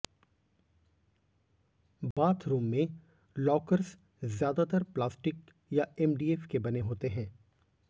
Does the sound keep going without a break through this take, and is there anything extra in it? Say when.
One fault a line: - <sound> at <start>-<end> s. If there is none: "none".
- dropout at 2.1-2.2 s